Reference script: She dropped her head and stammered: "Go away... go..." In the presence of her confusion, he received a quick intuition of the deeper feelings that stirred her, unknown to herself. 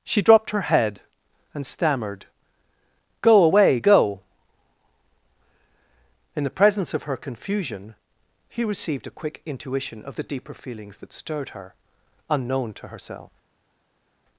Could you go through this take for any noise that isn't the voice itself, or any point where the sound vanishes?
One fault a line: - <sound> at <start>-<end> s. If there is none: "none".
none